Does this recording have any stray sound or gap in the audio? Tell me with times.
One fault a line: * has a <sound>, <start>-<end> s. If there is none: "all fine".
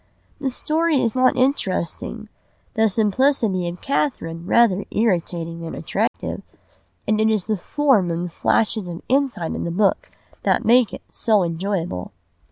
* has a dropout, 6.1-6.1 s